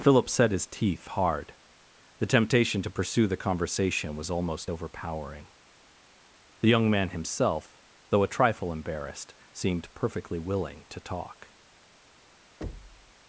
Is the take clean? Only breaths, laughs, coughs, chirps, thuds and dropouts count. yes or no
no